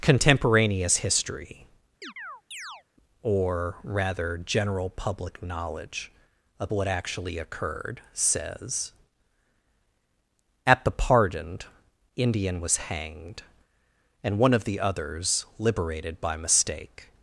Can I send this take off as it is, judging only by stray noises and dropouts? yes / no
no